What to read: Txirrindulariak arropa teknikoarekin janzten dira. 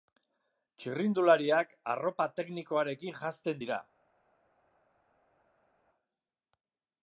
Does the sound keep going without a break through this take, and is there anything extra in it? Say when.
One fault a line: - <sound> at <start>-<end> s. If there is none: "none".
none